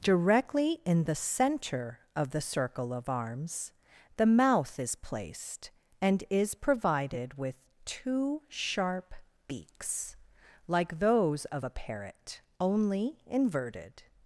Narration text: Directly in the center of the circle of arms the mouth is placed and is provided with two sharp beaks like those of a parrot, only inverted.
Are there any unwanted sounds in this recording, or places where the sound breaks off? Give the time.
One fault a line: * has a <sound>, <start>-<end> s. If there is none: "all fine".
all fine